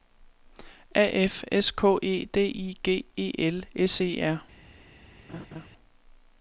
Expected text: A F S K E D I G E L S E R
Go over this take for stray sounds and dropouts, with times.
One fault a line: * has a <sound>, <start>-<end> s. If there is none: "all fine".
* has a laugh, 5.3-5.7 s